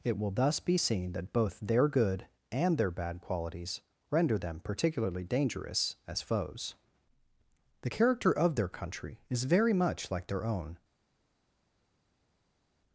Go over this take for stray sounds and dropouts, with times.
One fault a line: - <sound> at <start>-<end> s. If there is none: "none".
none